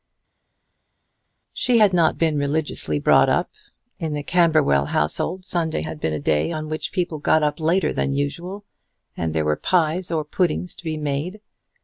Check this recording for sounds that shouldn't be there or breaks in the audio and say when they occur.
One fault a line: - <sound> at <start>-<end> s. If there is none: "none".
none